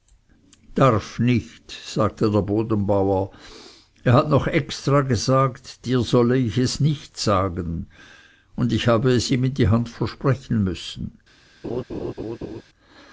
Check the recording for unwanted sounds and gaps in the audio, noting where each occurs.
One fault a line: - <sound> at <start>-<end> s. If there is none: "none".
- laugh at 11.6-12.6 s